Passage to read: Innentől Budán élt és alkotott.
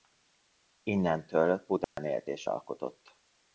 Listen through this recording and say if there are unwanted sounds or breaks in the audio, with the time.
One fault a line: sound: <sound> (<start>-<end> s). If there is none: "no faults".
sound: dropout (1.8-2.0 s)